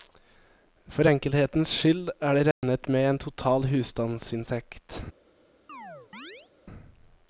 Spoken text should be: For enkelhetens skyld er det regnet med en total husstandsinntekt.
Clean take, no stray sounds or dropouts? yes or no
no